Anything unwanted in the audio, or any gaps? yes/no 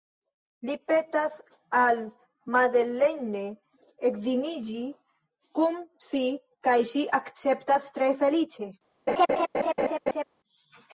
yes